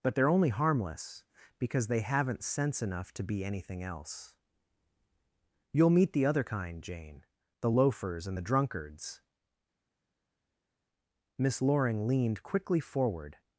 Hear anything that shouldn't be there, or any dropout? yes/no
no